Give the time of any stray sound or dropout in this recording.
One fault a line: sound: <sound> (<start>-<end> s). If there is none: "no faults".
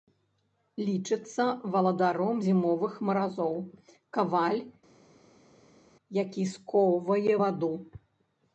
no faults